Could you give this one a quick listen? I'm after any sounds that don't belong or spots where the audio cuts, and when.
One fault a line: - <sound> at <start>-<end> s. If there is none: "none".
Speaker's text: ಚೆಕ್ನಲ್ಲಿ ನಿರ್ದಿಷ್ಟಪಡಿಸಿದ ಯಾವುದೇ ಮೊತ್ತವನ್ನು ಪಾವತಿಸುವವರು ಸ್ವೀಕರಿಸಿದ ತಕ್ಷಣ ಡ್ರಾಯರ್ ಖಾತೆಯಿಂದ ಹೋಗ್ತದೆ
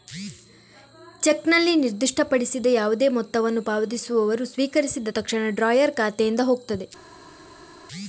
none